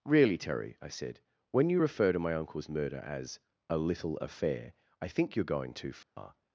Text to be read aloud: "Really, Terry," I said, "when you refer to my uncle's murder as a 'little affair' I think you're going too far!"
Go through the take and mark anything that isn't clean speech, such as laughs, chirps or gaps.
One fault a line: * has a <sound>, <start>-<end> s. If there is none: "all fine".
* has a dropout, 6.0-6.2 s